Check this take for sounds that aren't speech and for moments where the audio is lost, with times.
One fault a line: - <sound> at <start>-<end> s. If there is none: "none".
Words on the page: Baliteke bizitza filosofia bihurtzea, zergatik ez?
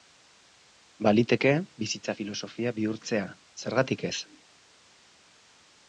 none